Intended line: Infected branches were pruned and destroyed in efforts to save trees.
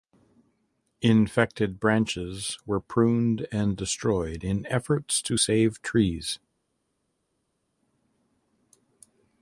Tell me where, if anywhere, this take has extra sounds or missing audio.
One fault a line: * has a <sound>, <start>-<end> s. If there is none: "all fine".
all fine